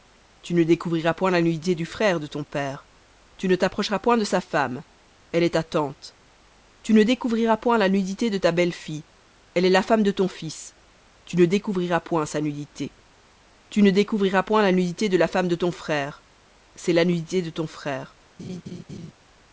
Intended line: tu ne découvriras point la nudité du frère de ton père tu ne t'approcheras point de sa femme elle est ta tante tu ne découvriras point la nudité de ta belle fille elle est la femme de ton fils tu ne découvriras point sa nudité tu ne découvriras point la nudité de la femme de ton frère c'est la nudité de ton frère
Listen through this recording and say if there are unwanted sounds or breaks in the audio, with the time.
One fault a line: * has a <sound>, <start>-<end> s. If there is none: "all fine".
* has a laugh, 18.4-19.1 s